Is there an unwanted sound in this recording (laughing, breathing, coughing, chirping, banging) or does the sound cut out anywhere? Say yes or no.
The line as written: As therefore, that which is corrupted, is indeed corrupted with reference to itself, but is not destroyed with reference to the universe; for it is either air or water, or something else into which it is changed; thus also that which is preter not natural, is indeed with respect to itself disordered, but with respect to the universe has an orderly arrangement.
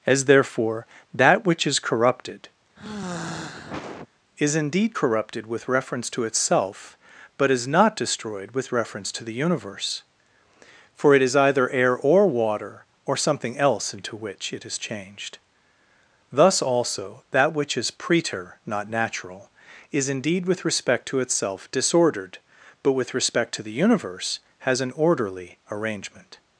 yes